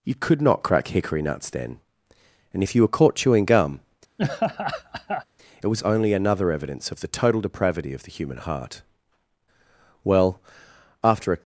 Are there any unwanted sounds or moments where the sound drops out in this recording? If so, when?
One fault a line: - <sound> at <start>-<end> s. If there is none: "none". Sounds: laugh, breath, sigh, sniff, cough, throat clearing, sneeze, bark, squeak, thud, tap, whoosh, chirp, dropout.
- laugh at 4.2-5.3 s